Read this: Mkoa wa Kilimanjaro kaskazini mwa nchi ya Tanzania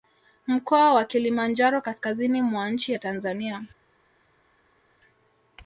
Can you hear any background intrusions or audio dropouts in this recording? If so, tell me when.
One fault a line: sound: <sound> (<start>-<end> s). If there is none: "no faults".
no faults